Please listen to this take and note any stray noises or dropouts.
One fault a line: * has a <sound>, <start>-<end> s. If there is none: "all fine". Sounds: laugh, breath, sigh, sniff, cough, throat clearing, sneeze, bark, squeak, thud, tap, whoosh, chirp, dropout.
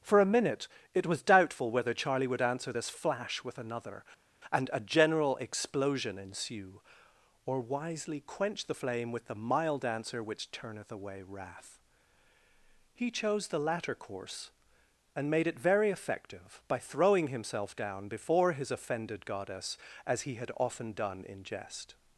all fine